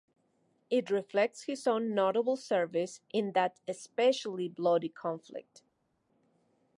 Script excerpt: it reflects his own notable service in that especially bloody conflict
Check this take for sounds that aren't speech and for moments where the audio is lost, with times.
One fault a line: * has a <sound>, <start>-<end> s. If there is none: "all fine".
all fine